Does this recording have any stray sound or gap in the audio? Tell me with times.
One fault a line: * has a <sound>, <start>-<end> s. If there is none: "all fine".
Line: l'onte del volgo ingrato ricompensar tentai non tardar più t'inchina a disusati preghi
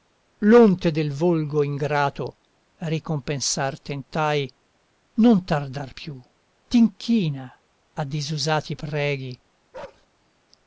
* has a bark, 9.7-10.1 s